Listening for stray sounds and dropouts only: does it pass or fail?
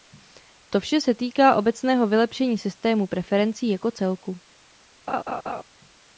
fail